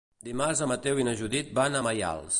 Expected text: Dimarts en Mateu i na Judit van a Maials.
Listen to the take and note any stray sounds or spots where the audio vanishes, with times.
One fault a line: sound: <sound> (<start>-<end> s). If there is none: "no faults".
no faults